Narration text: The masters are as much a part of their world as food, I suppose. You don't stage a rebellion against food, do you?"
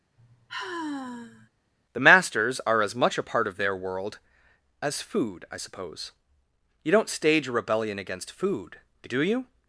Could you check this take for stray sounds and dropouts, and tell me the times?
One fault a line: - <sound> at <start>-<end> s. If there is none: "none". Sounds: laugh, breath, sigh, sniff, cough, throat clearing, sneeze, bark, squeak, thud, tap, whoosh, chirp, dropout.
- sigh at 0.2-1.5 s